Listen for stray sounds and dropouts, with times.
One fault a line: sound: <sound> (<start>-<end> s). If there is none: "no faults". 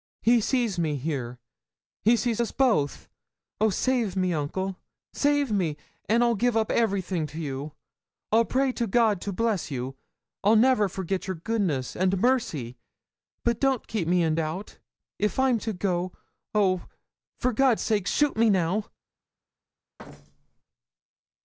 sound: thud (20.0-20.6 s)